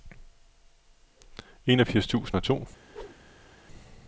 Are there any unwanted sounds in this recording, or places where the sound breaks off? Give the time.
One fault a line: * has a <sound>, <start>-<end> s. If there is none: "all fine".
* has a whoosh, 2.8-3.5 s